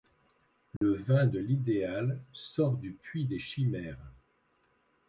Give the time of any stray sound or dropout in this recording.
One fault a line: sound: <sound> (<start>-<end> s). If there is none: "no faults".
sound: dropout (0.8-0.8 s)